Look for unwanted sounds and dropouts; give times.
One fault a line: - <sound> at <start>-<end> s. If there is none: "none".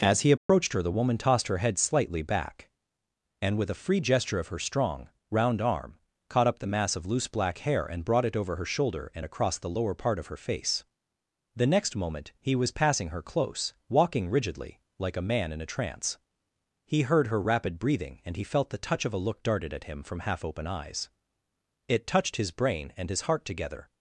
- dropout at 0.4-0.5 s